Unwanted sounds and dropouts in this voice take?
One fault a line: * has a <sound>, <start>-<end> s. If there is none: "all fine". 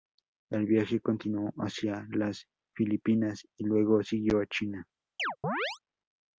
* has a chirp, 5.2-5.8 s